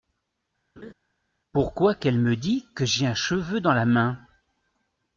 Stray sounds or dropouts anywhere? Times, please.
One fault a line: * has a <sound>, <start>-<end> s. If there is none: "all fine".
* has a laugh, 0.8-0.9 s